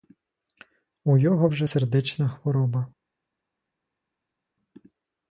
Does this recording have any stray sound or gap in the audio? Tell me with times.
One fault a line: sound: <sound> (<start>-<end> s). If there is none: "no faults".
no faults